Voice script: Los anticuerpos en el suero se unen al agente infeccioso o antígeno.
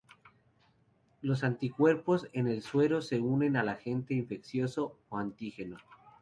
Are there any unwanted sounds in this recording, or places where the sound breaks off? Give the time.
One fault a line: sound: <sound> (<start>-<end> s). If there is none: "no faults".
no faults